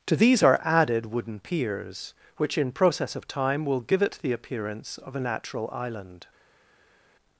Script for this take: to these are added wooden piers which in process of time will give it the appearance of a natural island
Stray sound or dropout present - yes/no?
no